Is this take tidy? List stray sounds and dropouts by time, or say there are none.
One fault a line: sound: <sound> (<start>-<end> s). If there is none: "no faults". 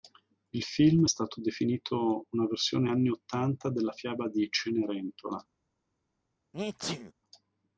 sound: sneeze (6.5-7.1 s)